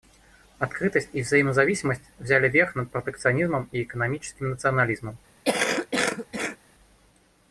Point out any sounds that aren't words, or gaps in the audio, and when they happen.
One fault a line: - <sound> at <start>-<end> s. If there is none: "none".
- cough at 5.4-6.6 s